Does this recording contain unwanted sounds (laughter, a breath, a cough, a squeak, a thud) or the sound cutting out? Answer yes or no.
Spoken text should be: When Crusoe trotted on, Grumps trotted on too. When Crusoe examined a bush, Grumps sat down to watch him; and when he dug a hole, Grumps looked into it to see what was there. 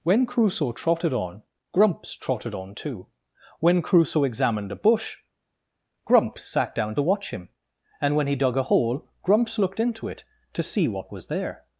no